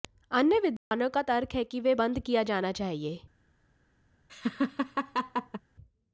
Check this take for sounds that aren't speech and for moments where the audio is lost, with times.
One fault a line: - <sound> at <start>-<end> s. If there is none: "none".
- dropout at 0.8-0.9 s
- laugh at 4.3-5.6 s